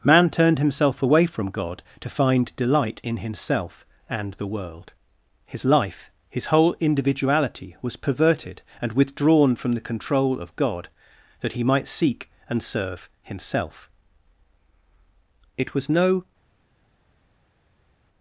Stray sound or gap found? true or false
false